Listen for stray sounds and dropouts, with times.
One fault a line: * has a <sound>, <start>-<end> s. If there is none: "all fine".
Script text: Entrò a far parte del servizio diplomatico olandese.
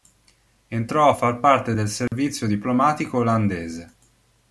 * has a dropout, 2.1-2.1 s